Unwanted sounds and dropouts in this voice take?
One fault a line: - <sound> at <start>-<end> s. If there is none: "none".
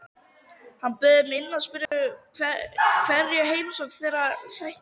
- dropout at 1.9-1.9 s